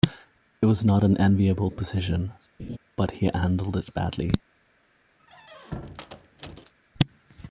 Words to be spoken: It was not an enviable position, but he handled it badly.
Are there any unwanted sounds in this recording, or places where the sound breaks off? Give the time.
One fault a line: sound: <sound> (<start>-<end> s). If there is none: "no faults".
sound: laugh (2.6-2.8 s)
sound: squeak (5.2-6.7 s)